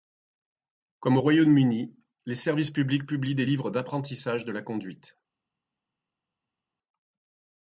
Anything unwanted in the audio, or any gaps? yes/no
no